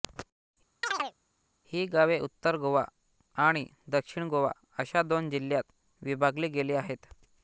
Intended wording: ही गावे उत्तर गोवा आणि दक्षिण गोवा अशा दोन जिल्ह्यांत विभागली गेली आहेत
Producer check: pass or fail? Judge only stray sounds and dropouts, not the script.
fail